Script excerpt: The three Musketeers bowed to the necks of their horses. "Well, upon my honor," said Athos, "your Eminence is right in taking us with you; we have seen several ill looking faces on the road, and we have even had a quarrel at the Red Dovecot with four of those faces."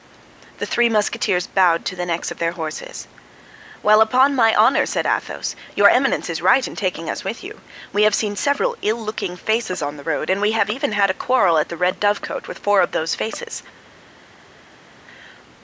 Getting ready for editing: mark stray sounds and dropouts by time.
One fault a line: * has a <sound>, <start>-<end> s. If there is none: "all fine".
all fine